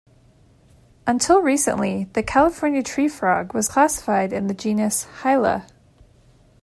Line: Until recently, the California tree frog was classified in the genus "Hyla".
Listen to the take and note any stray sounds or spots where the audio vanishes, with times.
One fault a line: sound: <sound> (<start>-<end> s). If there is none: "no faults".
no faults